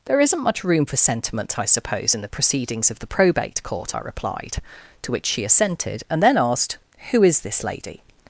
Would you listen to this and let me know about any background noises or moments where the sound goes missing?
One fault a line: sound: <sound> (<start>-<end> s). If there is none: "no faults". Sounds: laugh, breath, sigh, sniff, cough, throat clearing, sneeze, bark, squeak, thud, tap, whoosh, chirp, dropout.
no faults